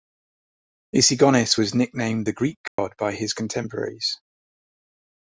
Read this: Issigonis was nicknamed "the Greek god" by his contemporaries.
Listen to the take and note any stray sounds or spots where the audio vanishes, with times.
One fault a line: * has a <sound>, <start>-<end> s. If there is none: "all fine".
* has a dropout, 2.7-2.8 s